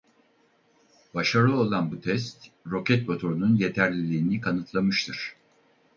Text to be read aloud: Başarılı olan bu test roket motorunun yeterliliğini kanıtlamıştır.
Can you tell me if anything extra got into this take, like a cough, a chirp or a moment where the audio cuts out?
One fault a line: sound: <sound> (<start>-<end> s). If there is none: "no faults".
no faults